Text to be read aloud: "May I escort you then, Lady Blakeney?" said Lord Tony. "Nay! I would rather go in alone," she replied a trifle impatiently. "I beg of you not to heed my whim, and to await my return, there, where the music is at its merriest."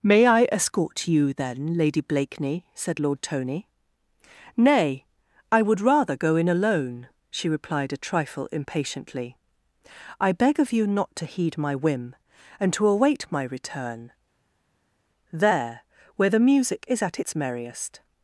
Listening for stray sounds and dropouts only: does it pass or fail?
pass